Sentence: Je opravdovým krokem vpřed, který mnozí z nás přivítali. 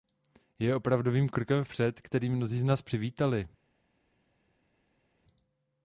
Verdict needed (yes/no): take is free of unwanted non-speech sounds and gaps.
yes